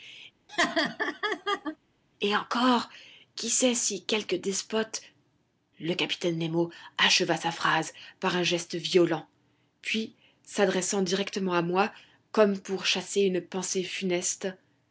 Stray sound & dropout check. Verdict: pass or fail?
fail